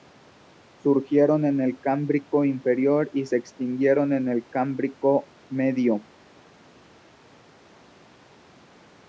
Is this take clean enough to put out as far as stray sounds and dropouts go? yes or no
yes